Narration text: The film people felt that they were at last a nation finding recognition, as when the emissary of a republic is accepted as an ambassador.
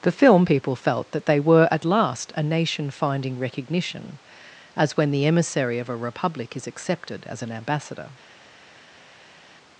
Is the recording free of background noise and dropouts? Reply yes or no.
yes